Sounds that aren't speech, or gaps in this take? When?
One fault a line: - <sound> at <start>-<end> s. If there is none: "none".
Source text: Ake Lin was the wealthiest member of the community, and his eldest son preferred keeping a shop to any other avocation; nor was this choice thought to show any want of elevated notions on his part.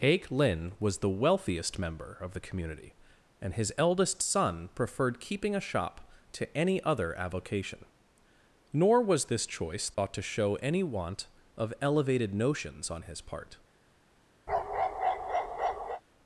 - dropout at 9.9-10.0 s
- bark at 14.5-16.0 s